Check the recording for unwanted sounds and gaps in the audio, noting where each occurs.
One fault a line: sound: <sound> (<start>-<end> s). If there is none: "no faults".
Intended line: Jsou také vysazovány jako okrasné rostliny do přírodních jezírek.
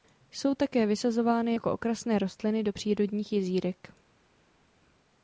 no faults